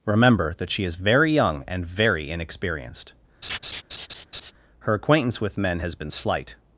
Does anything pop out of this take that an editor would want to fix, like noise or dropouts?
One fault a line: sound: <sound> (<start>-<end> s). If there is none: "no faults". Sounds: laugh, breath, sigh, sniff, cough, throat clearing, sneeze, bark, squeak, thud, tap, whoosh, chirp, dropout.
sound: laugh (3.4-4.5 s)